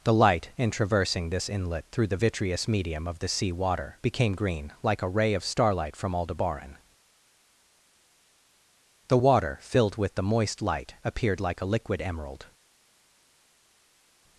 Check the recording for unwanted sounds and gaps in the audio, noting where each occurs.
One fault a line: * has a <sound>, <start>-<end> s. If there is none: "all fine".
all fine